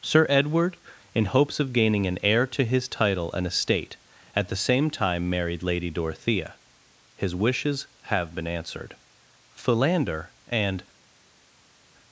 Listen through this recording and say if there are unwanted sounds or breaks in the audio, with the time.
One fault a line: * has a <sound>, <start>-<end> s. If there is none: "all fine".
all fine